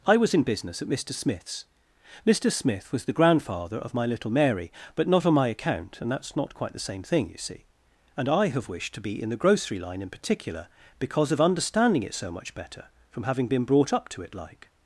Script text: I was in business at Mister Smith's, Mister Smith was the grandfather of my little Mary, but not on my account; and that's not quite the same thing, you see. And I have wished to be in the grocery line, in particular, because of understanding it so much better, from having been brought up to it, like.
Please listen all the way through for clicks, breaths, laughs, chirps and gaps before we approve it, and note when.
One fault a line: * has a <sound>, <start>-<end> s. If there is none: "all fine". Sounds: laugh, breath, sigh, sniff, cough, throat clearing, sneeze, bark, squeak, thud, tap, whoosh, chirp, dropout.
all fine